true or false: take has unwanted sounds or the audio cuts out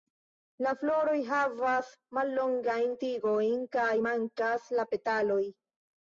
false